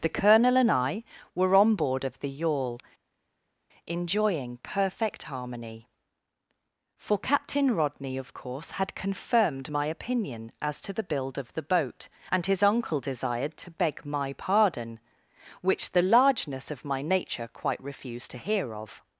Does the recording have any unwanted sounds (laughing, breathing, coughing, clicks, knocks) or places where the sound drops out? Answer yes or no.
no